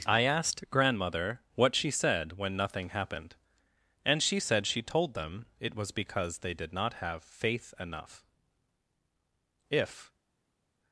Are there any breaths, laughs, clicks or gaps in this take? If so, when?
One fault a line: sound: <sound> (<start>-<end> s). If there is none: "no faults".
no faults